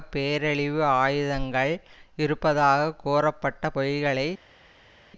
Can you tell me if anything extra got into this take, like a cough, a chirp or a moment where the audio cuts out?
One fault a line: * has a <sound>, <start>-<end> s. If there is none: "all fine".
all fine